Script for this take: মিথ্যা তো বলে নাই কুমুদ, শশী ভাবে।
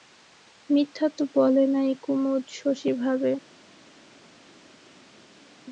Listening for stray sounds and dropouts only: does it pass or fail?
pass